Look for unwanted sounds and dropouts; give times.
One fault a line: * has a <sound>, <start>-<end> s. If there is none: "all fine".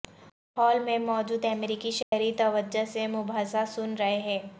* has a dropout, 2.0-2.1 s